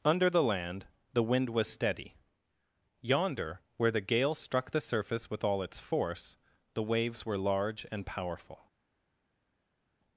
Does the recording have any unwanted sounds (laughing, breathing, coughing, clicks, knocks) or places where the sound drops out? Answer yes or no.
no